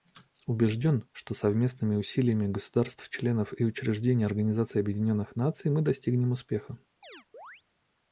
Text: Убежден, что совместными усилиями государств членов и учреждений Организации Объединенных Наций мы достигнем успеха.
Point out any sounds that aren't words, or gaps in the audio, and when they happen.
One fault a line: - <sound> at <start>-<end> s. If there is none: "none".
- chirp at 7.0-7.6 s